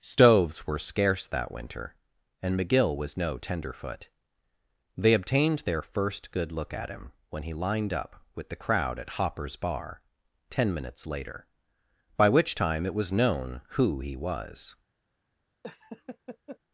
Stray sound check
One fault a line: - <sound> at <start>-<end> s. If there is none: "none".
- laugh at 15.6-16.6 s